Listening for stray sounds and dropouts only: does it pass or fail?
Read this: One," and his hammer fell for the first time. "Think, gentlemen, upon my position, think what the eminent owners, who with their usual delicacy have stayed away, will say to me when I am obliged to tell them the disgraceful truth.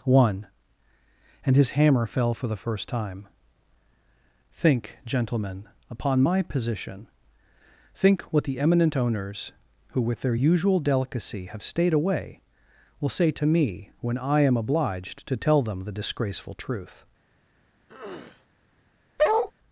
fail